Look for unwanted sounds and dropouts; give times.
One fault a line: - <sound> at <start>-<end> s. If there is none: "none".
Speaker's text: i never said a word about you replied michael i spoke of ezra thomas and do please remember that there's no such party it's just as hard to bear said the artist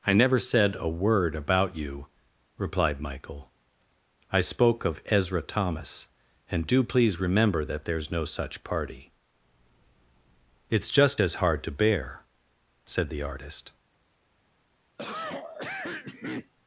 - cough at 15.0-16.5 s